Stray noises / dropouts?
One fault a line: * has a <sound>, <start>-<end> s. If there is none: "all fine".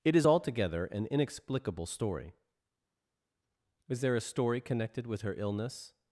all fine